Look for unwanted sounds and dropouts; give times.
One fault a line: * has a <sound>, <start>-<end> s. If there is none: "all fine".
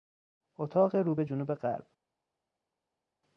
all fine